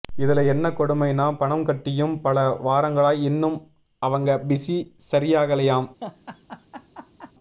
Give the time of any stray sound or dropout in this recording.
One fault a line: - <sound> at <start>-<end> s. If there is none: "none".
- laugh at 6.0-7.3 s